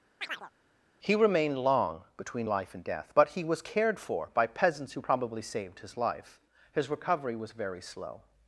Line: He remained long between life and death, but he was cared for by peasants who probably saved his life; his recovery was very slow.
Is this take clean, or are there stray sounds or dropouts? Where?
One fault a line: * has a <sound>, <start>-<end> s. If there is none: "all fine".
* has a chirp, 0.2-0.5 s